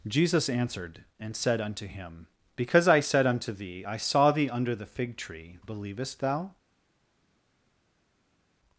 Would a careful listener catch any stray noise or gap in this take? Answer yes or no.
no